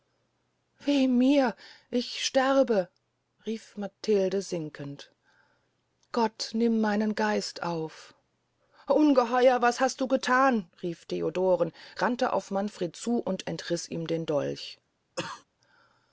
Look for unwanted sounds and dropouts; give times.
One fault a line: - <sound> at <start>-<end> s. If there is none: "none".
- cough at 15.2-15.4 s